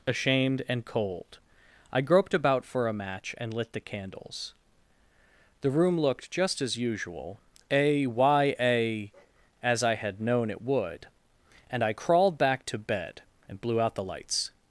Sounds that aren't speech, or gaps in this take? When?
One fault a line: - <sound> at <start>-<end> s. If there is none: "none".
none